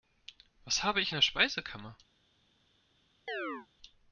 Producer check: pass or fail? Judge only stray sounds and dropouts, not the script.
fail